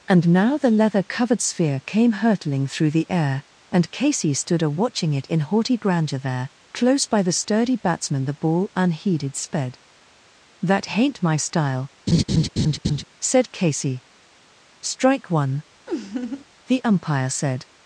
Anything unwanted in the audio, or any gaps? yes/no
yes